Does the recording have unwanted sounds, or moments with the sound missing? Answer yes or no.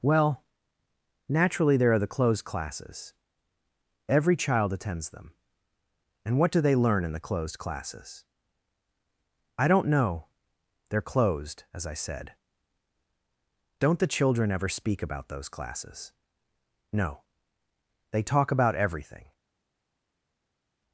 no